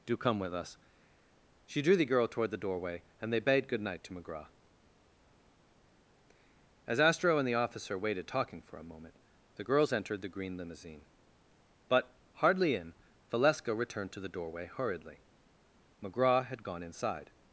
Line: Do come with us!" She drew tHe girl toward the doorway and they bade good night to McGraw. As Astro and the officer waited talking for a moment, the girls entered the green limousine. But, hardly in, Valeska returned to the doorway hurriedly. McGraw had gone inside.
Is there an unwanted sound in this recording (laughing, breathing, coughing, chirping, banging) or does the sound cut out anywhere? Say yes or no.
no